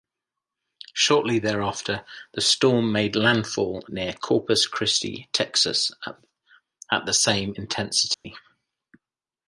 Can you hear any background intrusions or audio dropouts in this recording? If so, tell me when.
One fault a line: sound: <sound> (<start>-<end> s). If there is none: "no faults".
sound: dropout (8.1-8.2 s)